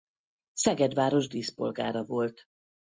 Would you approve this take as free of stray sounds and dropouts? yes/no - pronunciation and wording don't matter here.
yes